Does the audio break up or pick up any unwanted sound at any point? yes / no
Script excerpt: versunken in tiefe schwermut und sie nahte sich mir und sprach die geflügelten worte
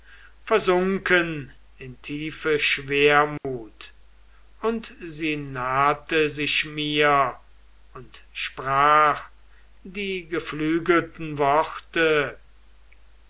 yes